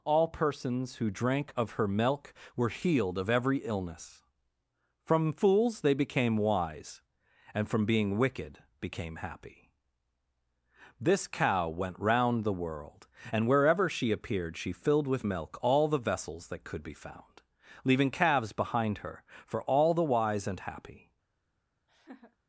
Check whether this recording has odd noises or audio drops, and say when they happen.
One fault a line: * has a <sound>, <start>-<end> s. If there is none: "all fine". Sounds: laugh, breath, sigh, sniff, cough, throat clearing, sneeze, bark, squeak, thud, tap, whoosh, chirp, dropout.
* has a laugh, 21.9-22.4 s